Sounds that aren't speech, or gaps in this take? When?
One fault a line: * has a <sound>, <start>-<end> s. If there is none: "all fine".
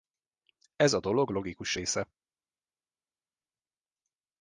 all fine